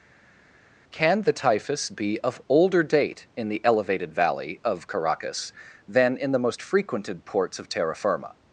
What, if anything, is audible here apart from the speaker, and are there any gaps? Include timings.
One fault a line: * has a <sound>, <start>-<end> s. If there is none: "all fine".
all fine